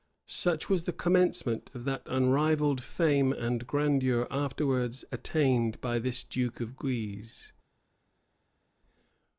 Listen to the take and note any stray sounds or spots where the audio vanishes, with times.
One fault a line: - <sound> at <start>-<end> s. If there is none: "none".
none